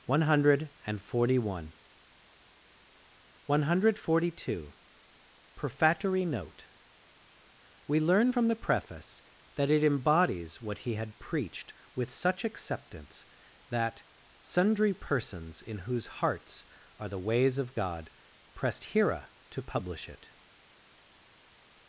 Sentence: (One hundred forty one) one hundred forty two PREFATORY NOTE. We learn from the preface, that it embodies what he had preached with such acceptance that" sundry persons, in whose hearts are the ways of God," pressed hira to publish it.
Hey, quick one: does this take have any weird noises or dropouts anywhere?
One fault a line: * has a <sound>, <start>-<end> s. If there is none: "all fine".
all fine